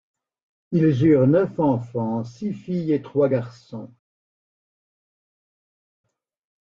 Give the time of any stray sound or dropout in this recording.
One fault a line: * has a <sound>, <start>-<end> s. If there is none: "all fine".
all fine